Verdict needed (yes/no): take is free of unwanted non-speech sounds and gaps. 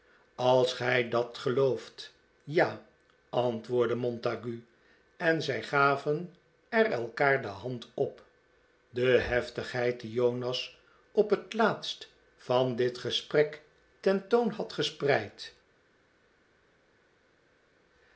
yes